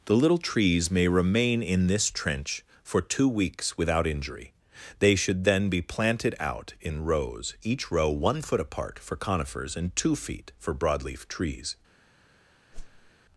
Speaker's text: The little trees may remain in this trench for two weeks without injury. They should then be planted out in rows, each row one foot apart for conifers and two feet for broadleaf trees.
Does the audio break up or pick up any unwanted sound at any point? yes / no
yes